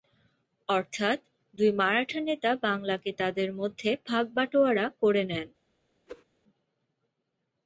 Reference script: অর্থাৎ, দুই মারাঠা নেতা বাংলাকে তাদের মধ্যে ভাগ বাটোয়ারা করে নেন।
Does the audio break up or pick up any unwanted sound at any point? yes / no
yes